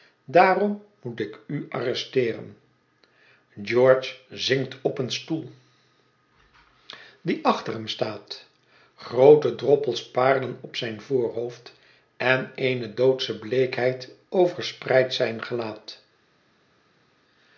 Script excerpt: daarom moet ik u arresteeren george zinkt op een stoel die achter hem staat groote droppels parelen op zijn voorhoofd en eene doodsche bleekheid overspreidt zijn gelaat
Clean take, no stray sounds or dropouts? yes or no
yes